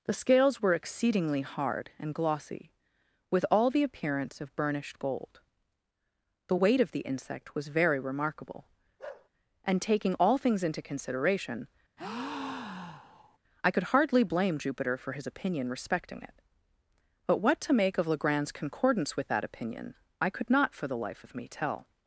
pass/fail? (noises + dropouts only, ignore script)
fail